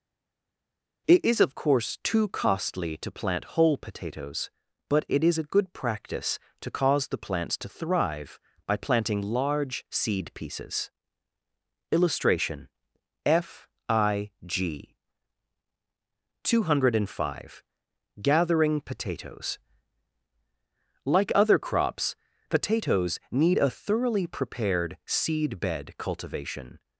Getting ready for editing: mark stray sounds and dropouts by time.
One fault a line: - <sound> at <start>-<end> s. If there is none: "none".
none